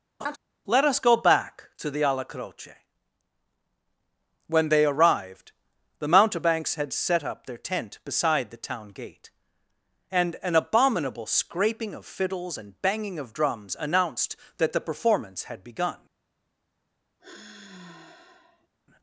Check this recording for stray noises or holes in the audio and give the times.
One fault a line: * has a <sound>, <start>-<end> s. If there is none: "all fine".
* has a laugh, 0.2-0.4 s
* has a sigh, 17.2-18.7 s